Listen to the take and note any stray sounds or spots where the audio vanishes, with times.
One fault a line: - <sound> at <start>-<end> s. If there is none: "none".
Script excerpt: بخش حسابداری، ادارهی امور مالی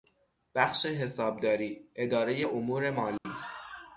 - dropout at 3.2-3.3 s